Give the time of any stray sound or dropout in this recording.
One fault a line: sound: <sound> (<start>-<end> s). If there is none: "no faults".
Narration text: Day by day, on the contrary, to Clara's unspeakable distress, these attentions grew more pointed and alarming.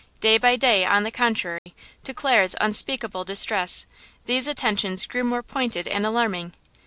sound: dropout (1.6-1.7 s)